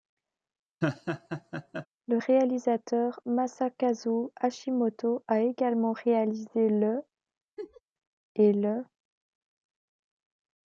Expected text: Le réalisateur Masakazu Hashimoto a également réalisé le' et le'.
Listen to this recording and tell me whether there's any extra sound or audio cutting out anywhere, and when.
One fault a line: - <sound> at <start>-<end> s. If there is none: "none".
- laugh at 0.8-1.9 s
- laugh at 7.6-7.8 s